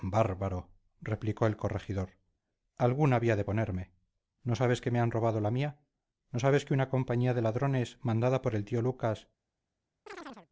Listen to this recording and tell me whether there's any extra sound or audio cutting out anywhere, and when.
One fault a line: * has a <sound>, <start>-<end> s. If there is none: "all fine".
* has a chirp, 10.1-10.5 s